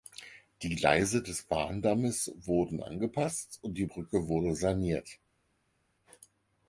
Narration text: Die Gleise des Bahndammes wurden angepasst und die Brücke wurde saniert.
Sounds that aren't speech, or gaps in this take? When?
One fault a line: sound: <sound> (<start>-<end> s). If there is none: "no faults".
no faults